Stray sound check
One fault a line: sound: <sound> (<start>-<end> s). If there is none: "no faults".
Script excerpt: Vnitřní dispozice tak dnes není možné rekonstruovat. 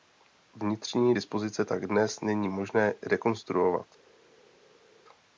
no faults